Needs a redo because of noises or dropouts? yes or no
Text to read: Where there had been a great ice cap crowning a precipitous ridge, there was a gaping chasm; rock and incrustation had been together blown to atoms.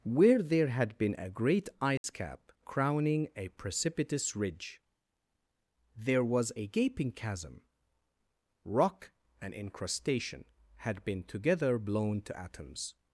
yes